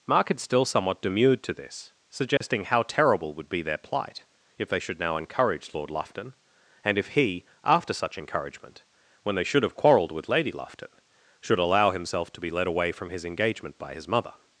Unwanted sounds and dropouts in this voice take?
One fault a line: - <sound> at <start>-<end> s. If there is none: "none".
- dropout at 2.4-2.4 s